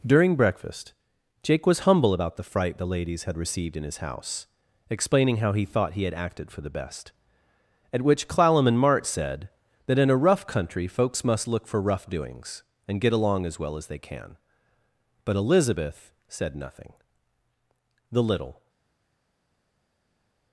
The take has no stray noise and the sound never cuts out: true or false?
true